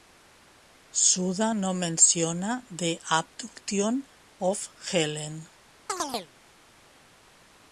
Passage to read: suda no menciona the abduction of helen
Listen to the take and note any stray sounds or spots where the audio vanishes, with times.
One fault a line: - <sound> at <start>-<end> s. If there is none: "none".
- chirp at 5.9-6.3 s